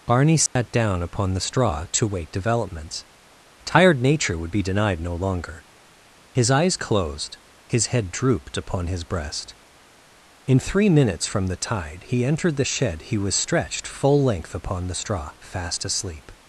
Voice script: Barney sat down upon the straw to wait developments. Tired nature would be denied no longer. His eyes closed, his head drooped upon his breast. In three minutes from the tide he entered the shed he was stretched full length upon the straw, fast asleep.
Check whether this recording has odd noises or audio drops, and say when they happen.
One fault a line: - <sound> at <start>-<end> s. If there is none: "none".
- dropout at 0.5-0.6 s